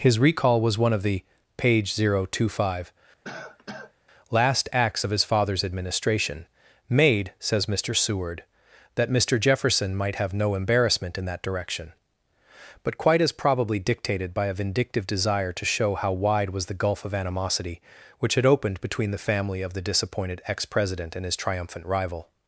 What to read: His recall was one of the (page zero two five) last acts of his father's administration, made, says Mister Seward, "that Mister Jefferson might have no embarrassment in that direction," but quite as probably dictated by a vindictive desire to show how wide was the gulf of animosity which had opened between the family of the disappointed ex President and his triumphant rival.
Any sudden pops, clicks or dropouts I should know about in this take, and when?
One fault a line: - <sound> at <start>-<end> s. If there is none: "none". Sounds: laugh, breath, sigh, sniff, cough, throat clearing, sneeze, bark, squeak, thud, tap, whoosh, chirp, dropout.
- cough at 3.2-3.9 s